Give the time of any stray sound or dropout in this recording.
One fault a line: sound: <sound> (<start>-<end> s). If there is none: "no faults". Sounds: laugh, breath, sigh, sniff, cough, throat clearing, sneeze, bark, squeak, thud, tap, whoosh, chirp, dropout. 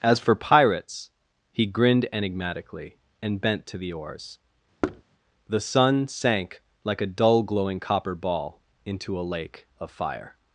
sound: thud (4.8-5.0 s)